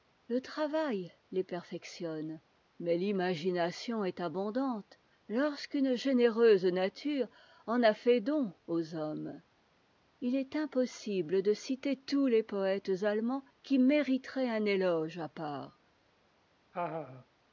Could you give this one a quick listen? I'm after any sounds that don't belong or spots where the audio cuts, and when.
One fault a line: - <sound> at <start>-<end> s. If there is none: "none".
- laugh at 16.7-17.3 s